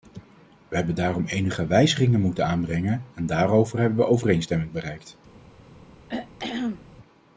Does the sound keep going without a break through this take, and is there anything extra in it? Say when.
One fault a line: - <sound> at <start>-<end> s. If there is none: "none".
- throat clearing at 6.1-6.9 s